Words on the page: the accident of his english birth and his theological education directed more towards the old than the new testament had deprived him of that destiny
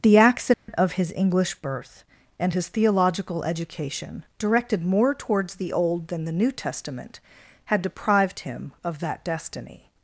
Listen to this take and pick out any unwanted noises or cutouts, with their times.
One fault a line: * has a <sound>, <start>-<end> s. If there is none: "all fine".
* has a dropout, 0.5-0.7 s